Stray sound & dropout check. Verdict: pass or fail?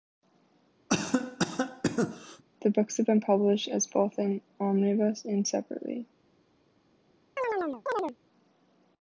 fail